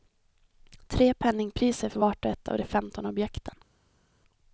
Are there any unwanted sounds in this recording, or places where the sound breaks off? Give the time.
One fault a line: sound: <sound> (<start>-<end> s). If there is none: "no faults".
no faults